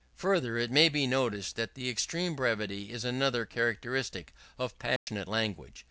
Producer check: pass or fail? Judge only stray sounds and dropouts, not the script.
fail